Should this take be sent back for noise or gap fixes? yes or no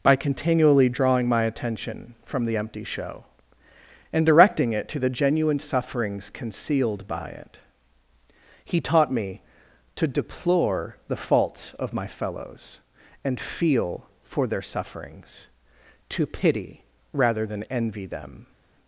no